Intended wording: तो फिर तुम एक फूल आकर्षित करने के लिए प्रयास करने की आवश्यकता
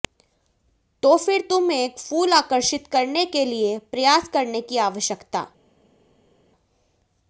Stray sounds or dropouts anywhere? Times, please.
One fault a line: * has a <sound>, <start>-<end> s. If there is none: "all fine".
all fine